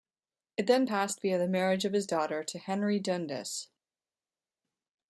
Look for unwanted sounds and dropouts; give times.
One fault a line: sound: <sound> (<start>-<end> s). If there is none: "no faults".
no faults